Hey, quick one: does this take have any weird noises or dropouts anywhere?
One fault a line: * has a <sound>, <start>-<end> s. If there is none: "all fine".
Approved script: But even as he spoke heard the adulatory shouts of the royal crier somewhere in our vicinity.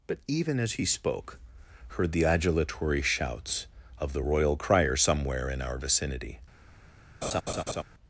* has a laugh, 7.2-7.8 s